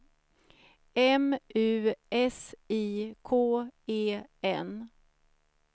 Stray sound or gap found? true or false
false